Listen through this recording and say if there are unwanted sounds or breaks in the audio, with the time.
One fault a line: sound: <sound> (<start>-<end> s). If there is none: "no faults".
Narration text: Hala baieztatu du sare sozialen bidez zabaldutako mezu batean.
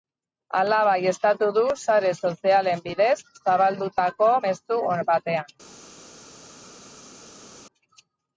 no faults